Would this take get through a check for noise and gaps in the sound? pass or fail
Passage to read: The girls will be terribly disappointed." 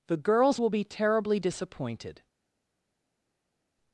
pass